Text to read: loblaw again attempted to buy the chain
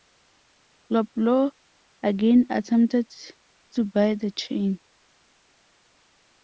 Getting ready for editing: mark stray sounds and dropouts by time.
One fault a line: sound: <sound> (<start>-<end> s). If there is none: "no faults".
no faults